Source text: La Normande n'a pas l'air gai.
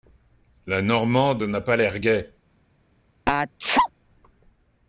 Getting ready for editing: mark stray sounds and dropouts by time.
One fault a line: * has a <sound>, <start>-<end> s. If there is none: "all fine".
* has a sneeze, 3.3-3.9 s